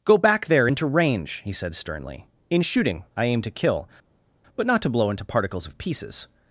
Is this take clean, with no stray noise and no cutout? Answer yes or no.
yes